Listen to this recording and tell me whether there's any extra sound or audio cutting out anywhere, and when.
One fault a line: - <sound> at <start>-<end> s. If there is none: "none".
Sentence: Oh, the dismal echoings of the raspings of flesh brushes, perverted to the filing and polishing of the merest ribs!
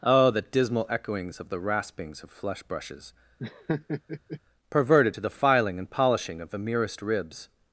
- laugh at 3.4-4.4 s